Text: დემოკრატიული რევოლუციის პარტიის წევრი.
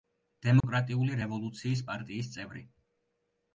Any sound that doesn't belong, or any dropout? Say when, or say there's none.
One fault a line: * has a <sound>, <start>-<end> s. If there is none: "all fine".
* has a dropout, 0.6-0.6 s